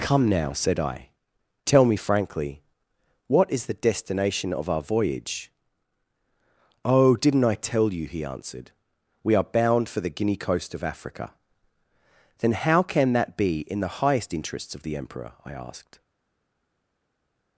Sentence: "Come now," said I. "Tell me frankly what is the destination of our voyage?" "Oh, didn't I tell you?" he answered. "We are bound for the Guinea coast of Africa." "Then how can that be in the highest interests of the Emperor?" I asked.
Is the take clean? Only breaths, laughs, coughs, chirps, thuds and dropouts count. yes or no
yes